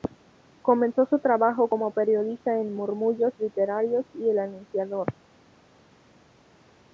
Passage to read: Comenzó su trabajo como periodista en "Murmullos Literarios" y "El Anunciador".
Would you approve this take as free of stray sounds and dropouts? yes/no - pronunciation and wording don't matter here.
yes